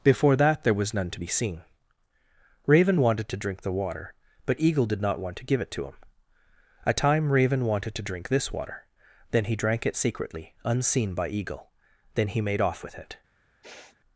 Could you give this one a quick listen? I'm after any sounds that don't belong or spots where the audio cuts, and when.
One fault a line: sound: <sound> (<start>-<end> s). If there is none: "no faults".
sound: sniff (13.6-14.0 s)